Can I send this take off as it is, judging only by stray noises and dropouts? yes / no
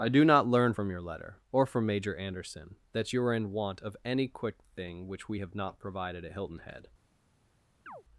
no